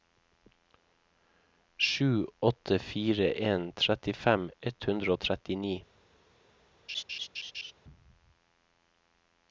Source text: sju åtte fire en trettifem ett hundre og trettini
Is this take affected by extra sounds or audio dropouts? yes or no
yes